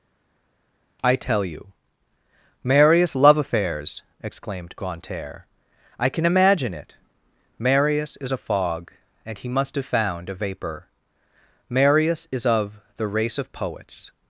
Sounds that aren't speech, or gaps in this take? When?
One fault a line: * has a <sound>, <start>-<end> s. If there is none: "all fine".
all fine